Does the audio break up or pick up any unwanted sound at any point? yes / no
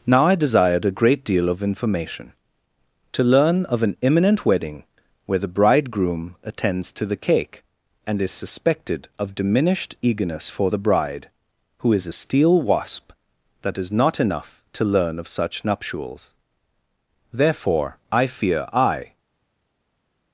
no